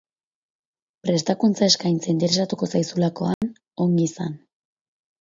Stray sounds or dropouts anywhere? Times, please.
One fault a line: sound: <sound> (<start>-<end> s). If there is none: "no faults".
sound: dropout (3.3-3.4 s)